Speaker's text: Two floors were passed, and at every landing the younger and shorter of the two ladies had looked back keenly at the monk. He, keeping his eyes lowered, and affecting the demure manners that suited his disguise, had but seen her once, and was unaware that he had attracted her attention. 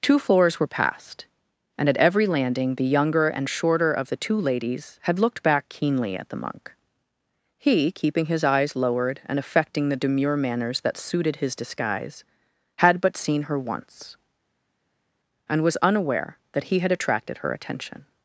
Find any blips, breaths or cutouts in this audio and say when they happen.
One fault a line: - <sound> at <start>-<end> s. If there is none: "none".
none